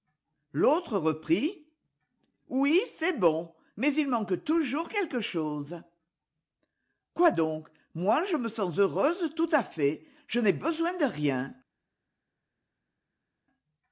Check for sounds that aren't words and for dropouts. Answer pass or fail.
pass